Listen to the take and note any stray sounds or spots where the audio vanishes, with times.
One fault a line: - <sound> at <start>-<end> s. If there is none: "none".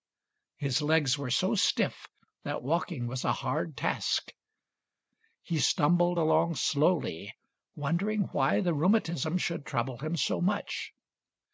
none